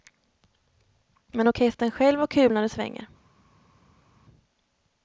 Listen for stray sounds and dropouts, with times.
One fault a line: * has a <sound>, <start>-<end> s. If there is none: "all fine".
all fine